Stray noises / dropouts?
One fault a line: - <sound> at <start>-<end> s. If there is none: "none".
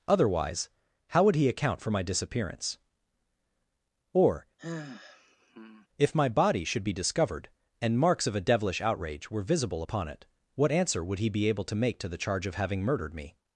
- sigh at 4.6-5.9 s